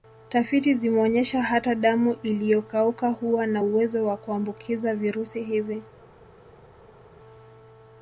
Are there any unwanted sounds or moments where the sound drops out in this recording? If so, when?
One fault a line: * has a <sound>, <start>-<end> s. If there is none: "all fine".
all fine